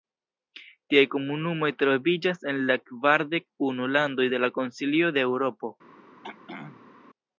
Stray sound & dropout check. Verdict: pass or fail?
fail